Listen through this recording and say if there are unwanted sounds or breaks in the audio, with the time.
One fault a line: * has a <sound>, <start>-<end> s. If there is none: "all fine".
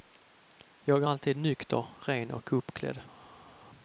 all fine